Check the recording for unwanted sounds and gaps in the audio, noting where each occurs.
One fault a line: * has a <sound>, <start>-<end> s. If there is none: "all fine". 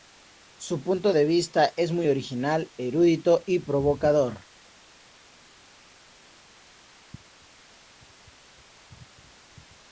all fine